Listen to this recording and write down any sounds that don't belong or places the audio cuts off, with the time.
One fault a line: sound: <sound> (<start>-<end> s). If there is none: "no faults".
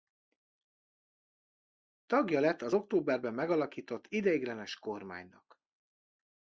no faults